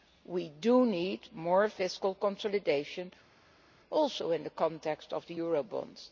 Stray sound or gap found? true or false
false